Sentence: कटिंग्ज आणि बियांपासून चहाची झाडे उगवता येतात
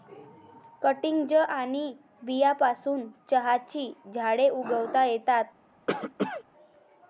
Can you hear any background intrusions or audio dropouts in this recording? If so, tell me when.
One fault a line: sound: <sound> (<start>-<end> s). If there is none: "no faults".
sound: cough (5.9-6.4 s)